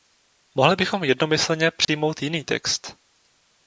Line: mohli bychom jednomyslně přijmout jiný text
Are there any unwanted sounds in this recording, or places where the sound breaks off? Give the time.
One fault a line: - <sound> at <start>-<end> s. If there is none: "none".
- dropout at 1.8-1.9 s